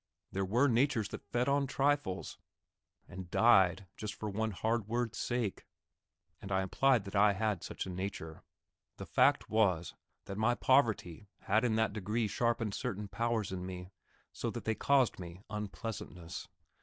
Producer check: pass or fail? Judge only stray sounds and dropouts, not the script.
pass